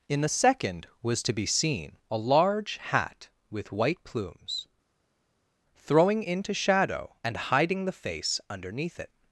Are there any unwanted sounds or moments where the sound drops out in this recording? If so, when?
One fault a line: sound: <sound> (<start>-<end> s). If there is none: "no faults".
no faults